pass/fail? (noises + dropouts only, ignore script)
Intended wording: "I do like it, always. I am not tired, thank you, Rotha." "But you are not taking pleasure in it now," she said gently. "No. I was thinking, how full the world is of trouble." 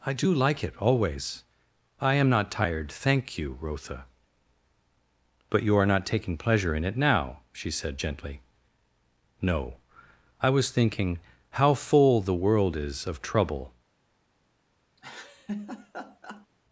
fail